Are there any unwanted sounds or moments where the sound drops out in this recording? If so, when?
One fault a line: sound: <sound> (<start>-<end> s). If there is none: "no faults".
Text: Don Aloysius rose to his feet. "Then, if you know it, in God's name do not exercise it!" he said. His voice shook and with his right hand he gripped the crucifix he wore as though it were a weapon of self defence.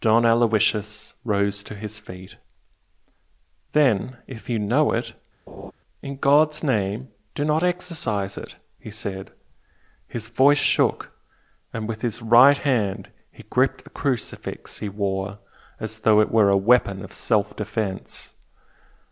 sound: laugh (5.5-5.7 s)